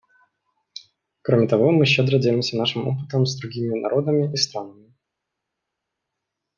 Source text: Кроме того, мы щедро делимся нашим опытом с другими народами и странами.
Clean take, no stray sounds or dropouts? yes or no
yes